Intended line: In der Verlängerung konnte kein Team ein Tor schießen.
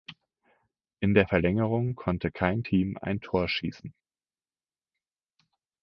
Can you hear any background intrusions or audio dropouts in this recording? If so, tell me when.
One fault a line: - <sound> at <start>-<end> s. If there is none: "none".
none